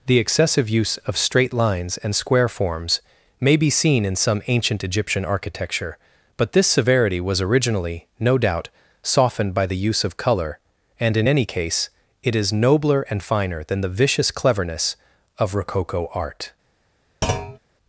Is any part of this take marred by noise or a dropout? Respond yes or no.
yes